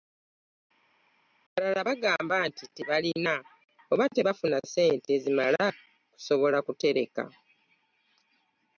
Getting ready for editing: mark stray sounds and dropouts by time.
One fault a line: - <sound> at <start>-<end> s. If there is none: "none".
none